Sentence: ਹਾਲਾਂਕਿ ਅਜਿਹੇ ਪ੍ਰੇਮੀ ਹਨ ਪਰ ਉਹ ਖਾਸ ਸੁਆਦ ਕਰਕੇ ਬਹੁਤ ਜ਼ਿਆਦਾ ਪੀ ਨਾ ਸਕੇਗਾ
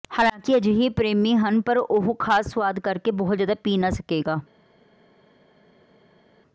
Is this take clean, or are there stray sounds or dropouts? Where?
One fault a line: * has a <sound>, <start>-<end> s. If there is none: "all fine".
all fine